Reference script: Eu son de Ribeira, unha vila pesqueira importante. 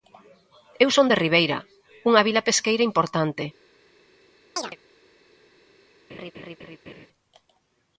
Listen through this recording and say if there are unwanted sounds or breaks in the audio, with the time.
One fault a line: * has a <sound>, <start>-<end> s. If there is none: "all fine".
* has a chirp, 4.6-4.8 s
* has a laugh, 6.1-7.1 s